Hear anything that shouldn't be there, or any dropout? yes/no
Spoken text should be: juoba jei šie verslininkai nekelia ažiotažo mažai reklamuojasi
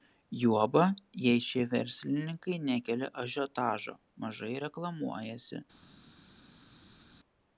no